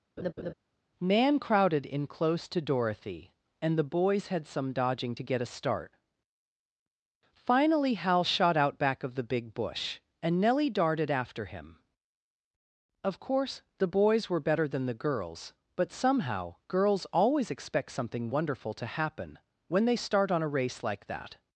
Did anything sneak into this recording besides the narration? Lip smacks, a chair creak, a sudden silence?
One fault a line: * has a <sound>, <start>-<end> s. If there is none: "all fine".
* has a laugh, 0.2-0.5 s